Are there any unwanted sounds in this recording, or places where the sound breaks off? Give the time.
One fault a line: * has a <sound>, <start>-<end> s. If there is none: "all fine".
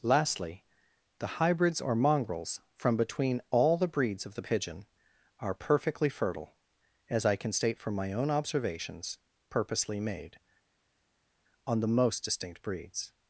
all fine